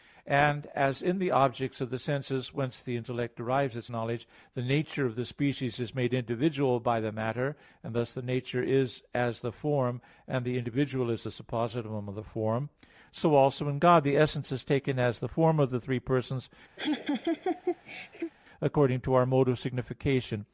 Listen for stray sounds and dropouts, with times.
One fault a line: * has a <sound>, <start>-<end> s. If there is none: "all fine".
* has a laugh, 16.8-18.3 s